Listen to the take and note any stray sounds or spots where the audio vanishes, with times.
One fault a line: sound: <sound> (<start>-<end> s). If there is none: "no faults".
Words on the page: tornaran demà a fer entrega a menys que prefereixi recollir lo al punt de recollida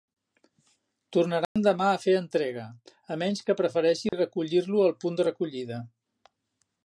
sound: dropout (1.4-1.6 s)
sound: dropout (4.1-4.1 s)